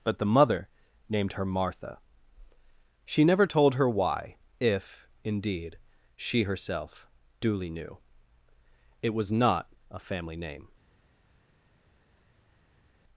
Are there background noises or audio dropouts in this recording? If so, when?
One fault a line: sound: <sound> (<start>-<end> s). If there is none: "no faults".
no faults